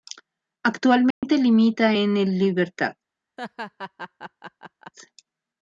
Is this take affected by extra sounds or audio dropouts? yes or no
yes